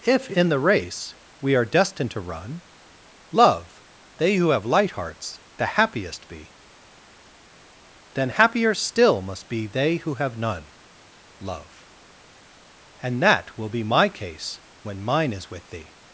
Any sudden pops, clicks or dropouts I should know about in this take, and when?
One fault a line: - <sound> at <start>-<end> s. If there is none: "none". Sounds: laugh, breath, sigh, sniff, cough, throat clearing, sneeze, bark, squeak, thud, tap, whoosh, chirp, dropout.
none